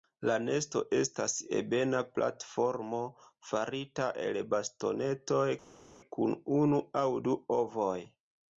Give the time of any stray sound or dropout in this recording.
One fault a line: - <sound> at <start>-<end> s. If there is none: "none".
none